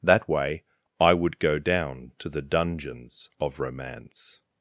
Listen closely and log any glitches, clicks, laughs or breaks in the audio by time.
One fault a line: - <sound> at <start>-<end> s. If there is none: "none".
none